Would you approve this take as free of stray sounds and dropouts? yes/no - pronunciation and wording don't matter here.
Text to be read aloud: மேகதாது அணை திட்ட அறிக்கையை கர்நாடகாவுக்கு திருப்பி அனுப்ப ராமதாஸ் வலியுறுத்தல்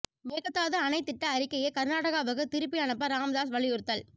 yes